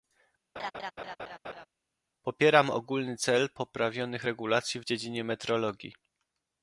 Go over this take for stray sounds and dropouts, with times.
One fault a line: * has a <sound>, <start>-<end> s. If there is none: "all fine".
* has a laugh, 0.6-1.7 s